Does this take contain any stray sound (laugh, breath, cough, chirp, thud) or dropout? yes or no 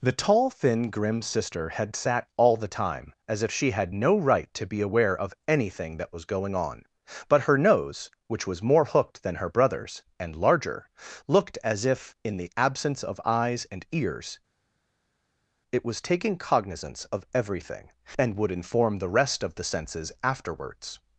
no